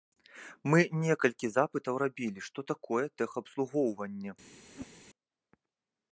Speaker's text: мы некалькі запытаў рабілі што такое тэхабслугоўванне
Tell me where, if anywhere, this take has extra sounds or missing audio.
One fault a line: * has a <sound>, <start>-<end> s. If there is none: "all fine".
* has a whoosh, 4.7-5.0 s